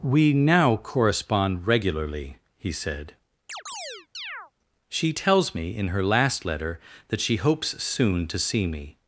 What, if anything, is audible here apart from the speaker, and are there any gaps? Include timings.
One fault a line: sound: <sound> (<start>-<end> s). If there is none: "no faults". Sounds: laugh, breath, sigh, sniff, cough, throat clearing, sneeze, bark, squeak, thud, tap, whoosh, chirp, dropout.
sound: chirp (3.5-4.5 s)